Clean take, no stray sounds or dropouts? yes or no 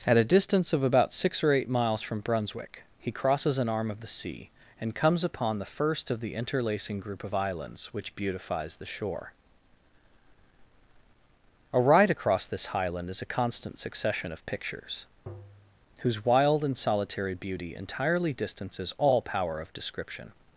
no